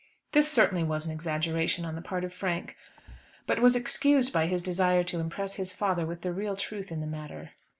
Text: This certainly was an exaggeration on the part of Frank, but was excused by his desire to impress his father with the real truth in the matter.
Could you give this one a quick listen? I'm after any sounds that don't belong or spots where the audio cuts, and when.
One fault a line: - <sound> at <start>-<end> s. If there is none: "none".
- thud at 3.0-3.3 s